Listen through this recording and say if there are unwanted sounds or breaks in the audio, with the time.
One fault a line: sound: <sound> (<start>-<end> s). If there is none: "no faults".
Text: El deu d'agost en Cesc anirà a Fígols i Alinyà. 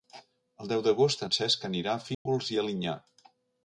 sound: dropout (2.1-2.3 s)